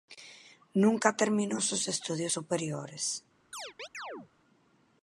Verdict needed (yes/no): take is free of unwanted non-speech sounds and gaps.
no